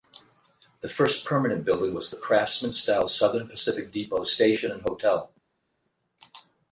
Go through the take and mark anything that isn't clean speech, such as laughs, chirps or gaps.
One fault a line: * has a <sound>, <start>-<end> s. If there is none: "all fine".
all fine